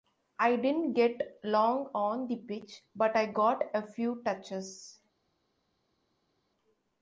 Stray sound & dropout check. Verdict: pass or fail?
pass